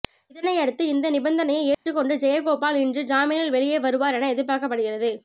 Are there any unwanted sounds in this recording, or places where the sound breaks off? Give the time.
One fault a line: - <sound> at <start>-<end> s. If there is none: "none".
- dropout at 1.7-1.9 s